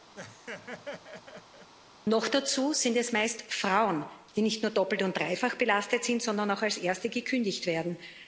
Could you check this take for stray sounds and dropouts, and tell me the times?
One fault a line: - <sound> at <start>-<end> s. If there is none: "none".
- laugh at 0.2-1.7 s